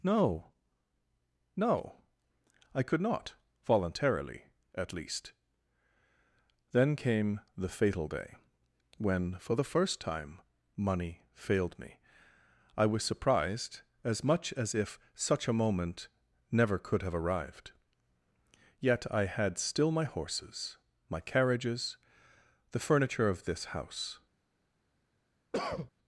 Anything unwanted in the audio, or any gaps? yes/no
yes